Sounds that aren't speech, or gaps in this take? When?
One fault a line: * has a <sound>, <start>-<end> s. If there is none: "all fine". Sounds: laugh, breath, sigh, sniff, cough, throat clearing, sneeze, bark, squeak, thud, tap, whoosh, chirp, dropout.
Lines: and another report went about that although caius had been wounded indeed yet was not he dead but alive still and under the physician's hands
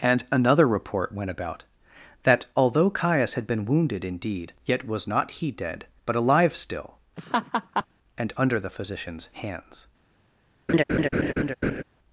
* has a laugh, 7.2-7.9 s
* has a laugh, 10.7-11.8 s